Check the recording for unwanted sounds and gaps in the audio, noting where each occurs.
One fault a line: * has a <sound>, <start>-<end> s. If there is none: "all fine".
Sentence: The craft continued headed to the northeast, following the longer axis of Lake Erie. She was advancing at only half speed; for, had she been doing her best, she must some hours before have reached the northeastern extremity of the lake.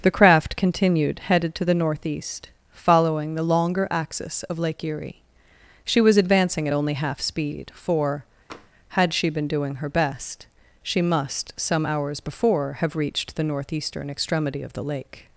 * has a tap, 8.5-8.7 s